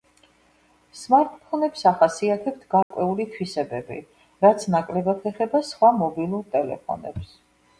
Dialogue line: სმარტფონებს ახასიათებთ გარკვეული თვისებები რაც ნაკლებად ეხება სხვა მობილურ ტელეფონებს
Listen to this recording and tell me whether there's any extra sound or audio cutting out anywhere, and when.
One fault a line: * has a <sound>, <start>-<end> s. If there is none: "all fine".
* has a dropout, 2.8-2.9 s